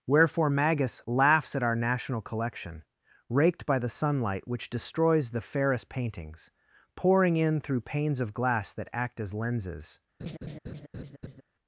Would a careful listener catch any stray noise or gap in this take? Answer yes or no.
yes